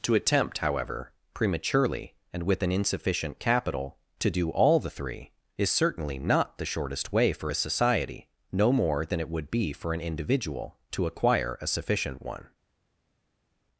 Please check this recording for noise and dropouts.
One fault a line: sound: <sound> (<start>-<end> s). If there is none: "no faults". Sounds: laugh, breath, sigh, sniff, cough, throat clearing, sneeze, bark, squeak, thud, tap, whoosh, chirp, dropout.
no faults